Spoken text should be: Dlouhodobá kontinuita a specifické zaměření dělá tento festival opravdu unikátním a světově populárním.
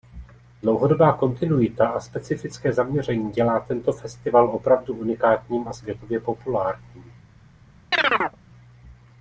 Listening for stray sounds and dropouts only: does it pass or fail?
fail